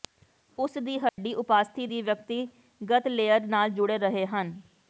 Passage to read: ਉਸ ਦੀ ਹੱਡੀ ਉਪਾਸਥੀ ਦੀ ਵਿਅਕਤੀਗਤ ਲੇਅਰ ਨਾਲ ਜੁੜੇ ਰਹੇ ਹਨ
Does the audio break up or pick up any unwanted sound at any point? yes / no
yes